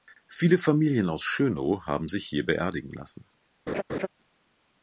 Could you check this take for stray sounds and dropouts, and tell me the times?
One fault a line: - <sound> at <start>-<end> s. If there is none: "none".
- laugh at 3.7-4.1 s